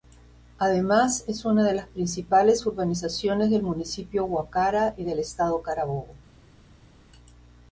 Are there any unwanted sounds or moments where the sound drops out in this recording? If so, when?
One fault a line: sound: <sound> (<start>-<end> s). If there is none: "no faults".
no faults